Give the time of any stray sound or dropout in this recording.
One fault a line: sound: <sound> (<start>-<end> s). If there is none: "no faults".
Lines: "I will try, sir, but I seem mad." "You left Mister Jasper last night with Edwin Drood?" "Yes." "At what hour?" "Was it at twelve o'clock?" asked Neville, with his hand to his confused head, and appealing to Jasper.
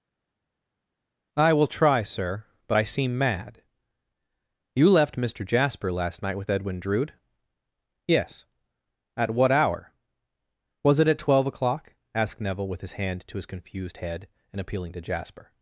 no faults